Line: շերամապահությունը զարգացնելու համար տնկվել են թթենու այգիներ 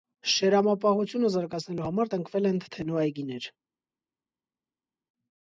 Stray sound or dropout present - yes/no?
no